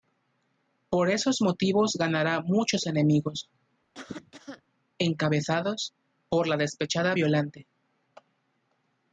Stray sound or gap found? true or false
true